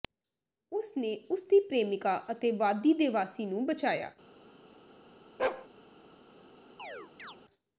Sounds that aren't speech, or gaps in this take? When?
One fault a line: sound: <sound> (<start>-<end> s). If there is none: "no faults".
sound: bark (5.4-5.7 s)
sound: chirp (6.8-7.4 s)